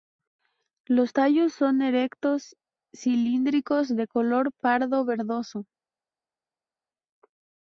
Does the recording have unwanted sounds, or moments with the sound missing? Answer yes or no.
no